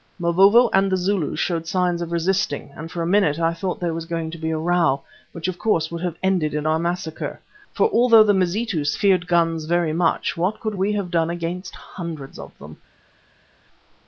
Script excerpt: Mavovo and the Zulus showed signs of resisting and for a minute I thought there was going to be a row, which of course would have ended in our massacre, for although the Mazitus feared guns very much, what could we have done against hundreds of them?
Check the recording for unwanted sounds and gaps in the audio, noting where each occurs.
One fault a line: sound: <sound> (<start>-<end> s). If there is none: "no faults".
no faults